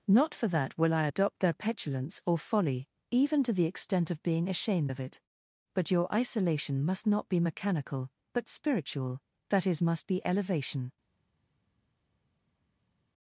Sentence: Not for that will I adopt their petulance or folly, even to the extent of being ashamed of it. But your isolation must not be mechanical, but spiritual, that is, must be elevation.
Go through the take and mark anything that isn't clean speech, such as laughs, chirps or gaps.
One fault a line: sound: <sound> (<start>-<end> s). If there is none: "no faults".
no faults